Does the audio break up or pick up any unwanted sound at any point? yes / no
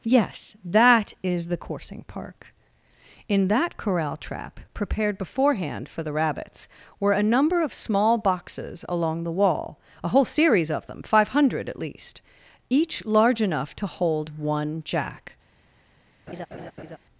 yes